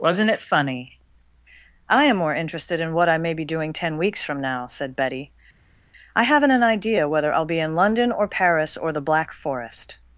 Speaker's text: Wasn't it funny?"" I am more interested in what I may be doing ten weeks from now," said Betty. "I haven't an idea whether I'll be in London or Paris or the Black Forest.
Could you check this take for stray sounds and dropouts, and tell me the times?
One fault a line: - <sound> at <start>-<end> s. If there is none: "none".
none